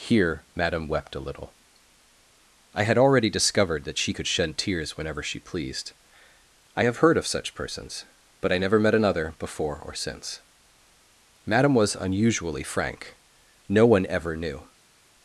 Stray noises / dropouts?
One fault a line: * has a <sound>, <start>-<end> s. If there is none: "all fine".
all fine